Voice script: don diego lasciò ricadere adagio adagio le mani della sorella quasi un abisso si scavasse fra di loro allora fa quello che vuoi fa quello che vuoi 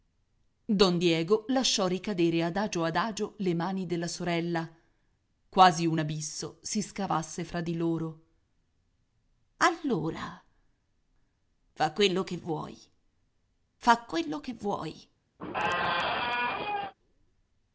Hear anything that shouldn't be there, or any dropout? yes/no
yes